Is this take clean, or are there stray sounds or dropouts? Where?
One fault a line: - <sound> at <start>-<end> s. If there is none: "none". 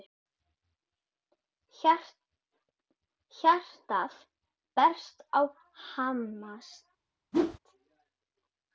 - whoosh at 7.3-7.6 s